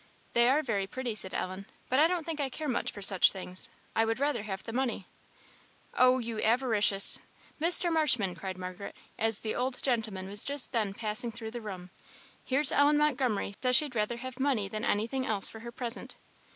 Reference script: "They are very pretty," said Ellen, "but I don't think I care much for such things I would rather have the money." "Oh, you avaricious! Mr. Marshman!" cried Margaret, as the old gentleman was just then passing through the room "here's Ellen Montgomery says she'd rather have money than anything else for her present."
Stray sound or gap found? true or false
true